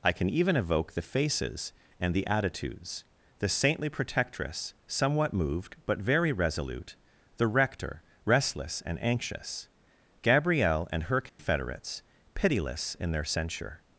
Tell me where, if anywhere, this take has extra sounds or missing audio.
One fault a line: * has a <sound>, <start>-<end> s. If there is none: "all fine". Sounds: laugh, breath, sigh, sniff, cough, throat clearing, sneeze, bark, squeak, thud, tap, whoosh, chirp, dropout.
* has a dropout, 11.3-11.4 s